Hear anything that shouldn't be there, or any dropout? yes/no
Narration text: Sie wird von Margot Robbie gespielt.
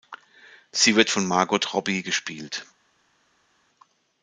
no